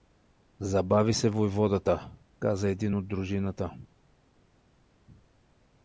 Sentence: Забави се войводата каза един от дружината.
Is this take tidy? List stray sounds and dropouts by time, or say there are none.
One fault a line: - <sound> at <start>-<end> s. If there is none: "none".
none